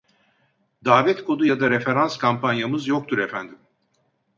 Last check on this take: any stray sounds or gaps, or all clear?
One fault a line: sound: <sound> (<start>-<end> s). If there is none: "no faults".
no faults